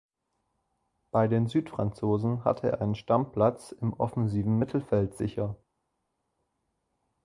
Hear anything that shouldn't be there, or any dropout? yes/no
no